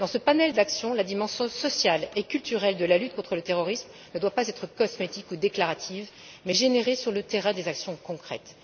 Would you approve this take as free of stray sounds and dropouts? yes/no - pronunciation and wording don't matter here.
yes